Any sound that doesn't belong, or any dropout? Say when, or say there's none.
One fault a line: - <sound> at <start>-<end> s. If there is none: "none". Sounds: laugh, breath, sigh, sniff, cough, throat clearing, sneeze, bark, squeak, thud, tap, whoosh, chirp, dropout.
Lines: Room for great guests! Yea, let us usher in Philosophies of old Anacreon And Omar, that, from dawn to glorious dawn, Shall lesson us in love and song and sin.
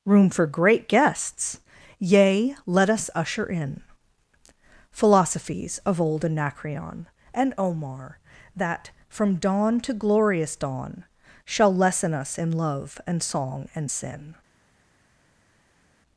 none